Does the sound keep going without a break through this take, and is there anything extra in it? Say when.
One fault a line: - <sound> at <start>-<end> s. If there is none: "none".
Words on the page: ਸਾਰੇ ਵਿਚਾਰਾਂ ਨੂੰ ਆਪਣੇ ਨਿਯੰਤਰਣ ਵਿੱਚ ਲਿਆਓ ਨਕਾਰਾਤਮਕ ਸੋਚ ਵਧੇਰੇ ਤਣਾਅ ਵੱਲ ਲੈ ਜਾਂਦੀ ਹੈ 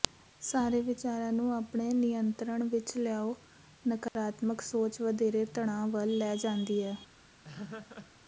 - dropout at 4.1-4.2 s
- laugh at 7.4-8.1 s